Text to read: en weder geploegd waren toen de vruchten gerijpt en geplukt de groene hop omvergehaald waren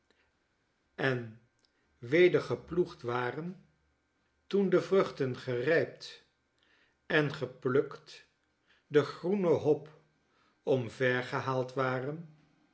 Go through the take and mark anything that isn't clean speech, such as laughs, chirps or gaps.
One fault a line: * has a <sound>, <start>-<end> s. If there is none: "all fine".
all fine